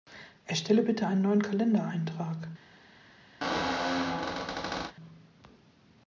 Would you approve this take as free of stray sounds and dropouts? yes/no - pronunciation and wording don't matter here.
no